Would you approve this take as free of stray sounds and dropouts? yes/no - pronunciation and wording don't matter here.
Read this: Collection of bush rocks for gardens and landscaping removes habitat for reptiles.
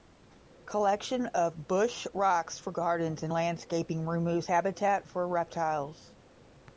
yes